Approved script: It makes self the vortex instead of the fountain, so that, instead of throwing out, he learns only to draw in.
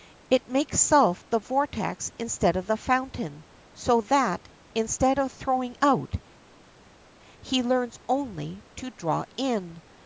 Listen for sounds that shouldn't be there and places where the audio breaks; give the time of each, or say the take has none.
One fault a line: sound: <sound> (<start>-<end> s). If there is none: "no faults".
no faults